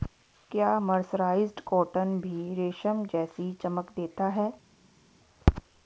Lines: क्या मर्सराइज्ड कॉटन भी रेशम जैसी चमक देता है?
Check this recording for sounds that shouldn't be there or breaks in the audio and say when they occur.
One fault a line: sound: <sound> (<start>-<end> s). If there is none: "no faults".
no faults